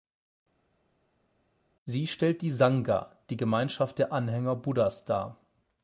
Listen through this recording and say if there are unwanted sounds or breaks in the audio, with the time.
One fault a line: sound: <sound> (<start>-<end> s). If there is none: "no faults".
no faults